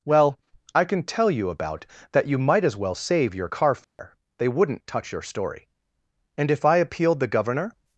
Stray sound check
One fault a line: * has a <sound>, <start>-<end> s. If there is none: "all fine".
* has a dropout, 3.8-4.0 s